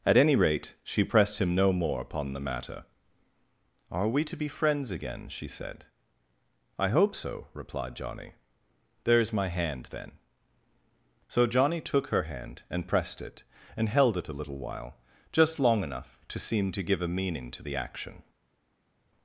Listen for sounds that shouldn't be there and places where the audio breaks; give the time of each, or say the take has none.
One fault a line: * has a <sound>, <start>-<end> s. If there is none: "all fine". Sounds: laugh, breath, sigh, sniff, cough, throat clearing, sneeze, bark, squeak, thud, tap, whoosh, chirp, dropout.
all fine